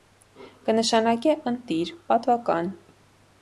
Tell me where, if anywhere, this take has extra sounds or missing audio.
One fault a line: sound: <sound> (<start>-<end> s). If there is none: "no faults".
no faults